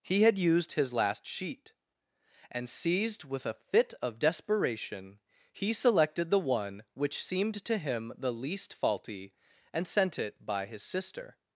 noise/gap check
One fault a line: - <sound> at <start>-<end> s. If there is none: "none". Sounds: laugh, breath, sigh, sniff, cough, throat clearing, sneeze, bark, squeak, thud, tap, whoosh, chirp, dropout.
none